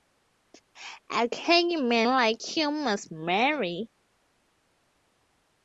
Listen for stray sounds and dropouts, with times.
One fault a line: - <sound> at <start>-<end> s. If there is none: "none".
none